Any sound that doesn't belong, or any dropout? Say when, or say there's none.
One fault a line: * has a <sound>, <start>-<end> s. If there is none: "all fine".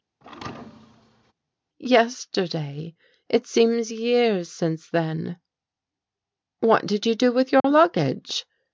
* has a thud, 0.2-1.3 s
* has a dropout, 7.6-7.6 s